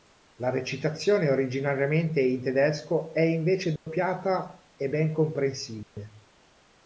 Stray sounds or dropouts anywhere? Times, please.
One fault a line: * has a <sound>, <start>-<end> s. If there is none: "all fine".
* has a dropout, 3.8-3.9 s
* has a dropout, 5.8-6.0 s